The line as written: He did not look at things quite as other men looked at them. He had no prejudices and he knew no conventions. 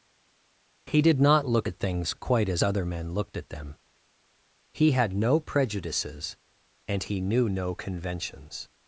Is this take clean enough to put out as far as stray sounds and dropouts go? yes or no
yes